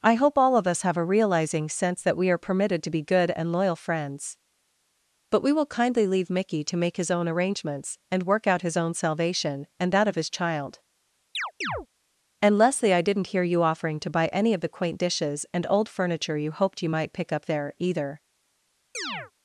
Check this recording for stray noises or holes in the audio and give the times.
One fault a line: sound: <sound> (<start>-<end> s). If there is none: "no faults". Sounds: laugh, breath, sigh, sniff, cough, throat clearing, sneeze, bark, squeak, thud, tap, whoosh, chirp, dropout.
sound: chirp (11.3-11.9 s)
sound: chirp (18.9-19.3 s)